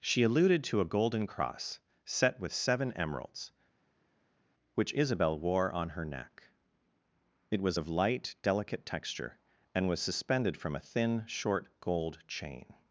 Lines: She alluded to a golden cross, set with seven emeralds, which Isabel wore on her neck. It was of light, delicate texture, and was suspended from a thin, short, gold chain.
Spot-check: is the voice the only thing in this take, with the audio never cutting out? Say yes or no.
yes